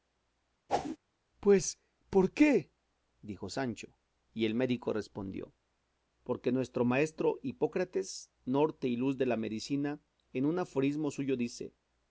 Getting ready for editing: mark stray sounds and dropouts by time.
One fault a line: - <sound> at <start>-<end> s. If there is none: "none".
- whoosh at 0.7-1.0 s